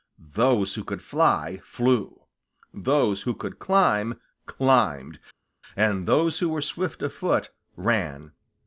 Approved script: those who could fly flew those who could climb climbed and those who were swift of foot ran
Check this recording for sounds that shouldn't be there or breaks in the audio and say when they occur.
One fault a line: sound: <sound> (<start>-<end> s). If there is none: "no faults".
no faults